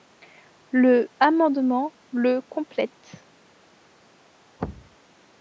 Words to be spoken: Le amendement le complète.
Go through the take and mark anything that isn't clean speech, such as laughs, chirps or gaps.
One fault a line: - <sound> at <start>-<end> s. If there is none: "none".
- thud at 4.6-5.0 s